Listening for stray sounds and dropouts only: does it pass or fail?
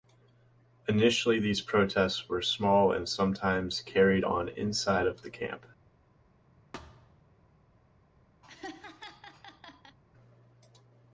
fail